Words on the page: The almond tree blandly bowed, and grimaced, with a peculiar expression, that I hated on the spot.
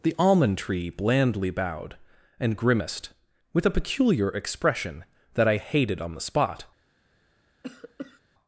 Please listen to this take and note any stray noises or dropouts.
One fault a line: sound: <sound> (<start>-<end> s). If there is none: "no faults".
sound: cough (7.6-8.2 s)